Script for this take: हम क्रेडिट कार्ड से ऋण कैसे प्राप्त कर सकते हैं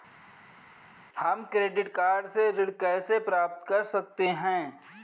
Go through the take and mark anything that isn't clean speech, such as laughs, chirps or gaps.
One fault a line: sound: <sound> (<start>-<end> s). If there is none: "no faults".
no faults